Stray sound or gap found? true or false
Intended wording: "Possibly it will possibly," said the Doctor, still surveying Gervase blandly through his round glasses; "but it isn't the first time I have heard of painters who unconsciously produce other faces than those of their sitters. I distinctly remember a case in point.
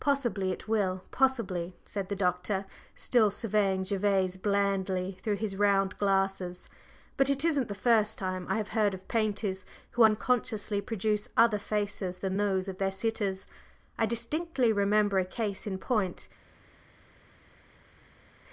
false